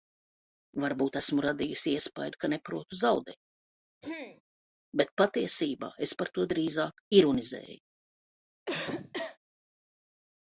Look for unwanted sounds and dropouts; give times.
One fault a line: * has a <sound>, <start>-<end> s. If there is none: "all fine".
* has a throat clearing, 4.0-4.4 s
* has a cough, 8.7-9.4 s